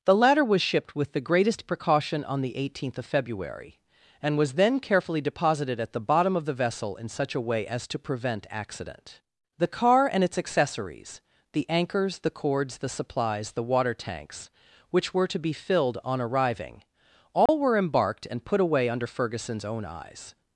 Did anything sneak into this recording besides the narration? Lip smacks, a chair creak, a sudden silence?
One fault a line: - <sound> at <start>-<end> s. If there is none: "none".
- dropout at 17.5-17.5 s